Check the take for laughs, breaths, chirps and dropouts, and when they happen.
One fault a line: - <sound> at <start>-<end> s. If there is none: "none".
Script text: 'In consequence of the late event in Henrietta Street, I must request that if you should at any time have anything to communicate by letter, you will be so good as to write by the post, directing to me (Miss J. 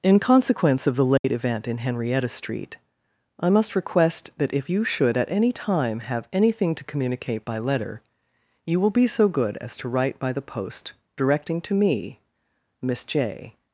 - dropout at 1.2-1.2 s